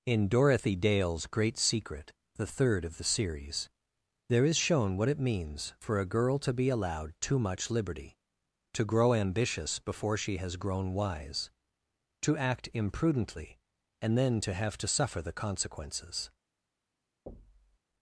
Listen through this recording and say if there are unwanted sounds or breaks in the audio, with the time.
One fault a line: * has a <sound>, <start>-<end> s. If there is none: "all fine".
* has a thud, 17.3-17.8 s